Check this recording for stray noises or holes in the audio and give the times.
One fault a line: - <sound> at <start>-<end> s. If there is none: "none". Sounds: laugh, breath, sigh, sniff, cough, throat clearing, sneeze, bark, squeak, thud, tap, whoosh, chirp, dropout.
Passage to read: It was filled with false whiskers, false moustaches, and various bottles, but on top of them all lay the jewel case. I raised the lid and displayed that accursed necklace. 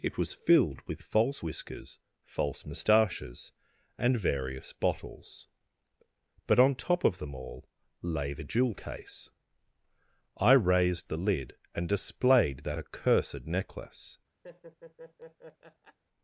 - laugh at 14.4-16.0 s